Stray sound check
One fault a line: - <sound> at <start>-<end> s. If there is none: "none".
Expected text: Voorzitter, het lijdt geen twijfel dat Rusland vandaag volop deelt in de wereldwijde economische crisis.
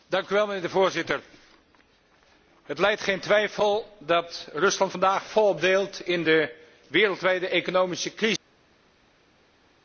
none